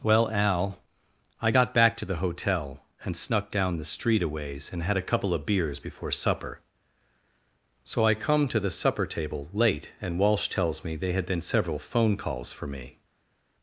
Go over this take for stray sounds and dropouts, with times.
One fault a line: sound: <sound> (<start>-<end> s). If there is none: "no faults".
no faults